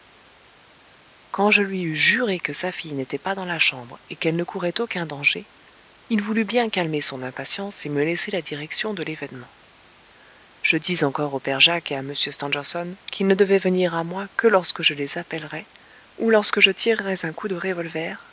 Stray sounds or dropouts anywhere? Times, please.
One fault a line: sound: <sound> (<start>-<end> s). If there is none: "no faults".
no faults